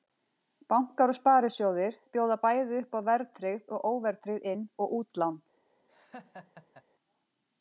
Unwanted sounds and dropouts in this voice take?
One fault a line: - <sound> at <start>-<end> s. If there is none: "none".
- laugh at 5.9-6.8 s